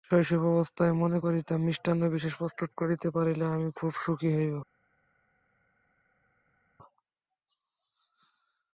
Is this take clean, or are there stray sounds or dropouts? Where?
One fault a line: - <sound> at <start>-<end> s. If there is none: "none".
none